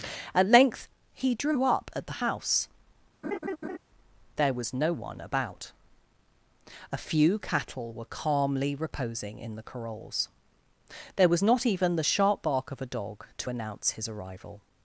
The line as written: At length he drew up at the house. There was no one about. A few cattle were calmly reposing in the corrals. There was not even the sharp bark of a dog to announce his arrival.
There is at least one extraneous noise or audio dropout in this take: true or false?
true